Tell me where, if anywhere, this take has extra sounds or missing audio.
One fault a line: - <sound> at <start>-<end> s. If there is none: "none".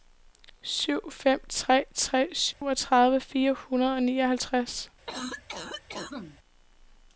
- dropout at 2.5-2.6 s
- cough at 5.1-6.4 s